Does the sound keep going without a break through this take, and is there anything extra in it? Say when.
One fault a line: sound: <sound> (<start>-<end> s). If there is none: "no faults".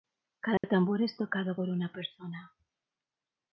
sound: dropout (0.6-0.6 s)